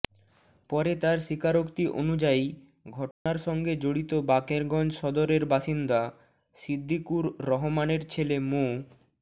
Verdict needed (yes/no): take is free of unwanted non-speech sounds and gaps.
no